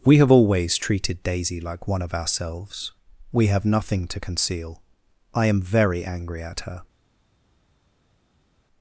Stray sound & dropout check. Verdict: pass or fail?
pass